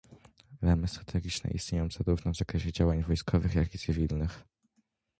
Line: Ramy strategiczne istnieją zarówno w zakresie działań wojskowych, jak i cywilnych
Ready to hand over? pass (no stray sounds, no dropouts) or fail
pass